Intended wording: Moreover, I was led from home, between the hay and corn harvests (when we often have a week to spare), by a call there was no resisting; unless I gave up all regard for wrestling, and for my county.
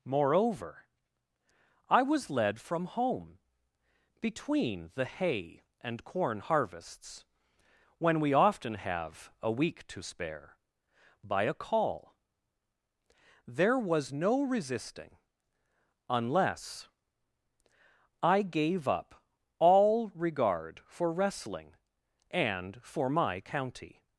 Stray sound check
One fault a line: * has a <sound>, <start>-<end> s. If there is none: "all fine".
all fine